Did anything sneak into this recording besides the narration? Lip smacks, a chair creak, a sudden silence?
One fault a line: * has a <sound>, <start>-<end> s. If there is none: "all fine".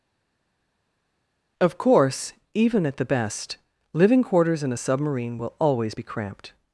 all fine